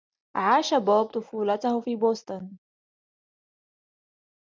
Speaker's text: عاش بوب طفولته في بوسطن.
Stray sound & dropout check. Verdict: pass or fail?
pass